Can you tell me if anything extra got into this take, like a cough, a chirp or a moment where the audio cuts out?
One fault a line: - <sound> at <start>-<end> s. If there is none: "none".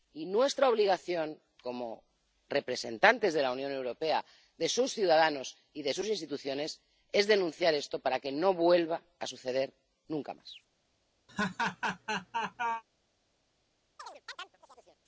- laugh at 11.3-12.8 s
- chirp at 14.0-15.0 s